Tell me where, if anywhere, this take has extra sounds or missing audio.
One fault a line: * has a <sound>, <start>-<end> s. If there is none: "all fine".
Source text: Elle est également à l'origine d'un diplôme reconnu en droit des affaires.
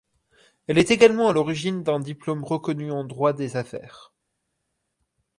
all fine